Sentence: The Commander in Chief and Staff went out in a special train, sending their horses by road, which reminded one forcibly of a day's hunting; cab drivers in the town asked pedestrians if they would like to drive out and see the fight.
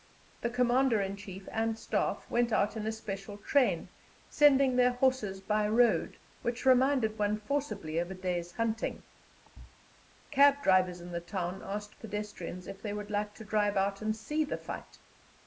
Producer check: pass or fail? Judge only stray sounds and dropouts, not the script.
fail